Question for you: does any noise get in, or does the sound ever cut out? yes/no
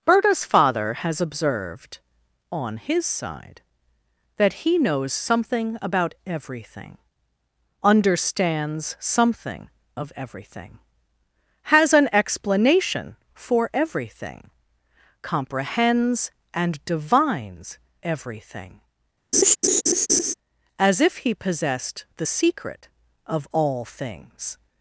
yes